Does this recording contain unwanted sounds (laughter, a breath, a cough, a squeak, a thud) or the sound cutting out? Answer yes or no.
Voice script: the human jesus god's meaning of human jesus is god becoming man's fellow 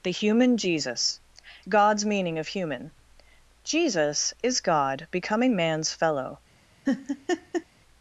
yes